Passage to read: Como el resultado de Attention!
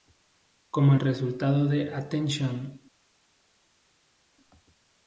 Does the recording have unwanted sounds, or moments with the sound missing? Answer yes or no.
no